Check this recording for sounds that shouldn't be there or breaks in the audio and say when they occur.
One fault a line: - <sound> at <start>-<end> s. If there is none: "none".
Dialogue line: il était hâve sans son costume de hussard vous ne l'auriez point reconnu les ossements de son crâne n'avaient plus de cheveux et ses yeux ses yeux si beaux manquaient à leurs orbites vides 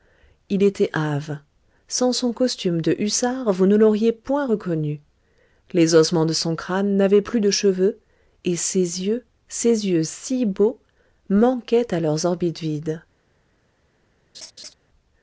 - laugh at 14.3-14.7 s